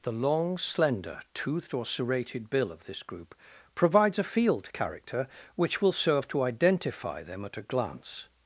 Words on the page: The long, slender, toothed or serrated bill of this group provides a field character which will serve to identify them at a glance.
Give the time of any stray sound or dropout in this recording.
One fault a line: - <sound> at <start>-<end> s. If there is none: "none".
none